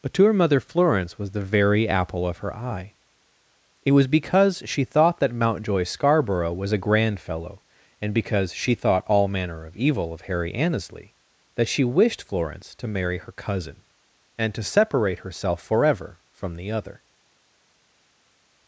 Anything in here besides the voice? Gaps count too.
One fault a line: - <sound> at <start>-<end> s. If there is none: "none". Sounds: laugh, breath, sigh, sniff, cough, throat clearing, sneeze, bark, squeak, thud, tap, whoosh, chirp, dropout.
none